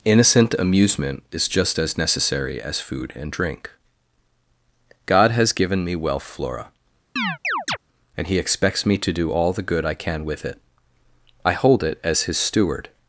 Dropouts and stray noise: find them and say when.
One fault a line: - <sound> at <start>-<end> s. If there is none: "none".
- chirp at 7.2-7.8 s